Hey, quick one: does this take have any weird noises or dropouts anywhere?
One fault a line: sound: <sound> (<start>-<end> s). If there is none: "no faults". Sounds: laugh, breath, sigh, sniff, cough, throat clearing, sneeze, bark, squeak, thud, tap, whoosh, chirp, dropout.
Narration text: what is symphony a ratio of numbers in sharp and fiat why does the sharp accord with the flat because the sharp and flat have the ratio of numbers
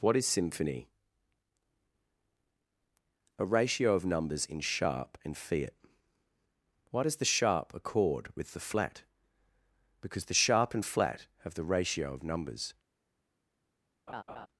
sound: laugh (14.1-14.5 s)